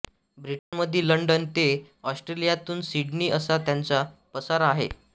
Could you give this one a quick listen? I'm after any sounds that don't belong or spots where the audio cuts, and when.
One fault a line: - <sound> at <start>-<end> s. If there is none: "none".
- dropout at 0.6-0.7 s